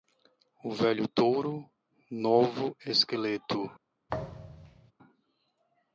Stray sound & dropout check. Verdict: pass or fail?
fail